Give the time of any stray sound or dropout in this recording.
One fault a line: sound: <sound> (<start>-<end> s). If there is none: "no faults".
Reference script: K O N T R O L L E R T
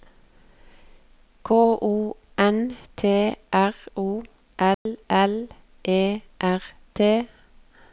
sound: dropout (4.7-4.9 s)